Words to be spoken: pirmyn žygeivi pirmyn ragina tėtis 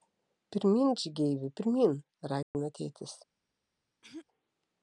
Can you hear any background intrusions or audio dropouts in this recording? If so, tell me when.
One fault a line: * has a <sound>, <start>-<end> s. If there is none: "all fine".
* has a dropout, 2.4-2.5 s
* has a throat clearing, 4.0-4.3 s